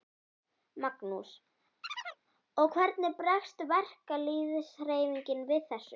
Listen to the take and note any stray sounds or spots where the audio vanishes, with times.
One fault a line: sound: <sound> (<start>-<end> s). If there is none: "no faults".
sound: chirp (1.8-2.2 s)